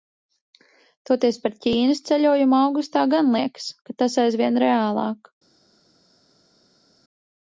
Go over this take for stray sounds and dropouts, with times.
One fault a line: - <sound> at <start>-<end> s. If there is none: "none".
none